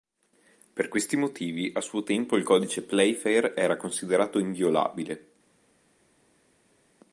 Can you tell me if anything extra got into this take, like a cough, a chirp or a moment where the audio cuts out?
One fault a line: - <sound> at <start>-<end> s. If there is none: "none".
none